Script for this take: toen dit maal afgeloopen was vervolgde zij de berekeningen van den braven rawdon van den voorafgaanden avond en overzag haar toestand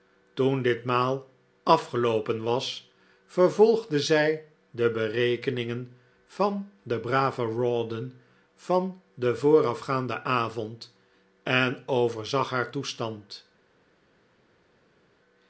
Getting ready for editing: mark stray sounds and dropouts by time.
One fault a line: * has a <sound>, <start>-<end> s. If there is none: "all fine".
all fine